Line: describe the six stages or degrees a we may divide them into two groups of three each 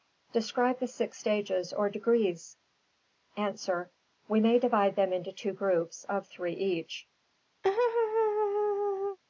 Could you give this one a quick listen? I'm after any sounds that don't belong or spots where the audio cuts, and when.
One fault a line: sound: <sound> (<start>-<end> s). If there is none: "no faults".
sound: laugh (7.6-9.2 s)